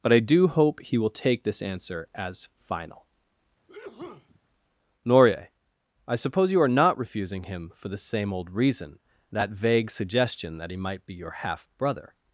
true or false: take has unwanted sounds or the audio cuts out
true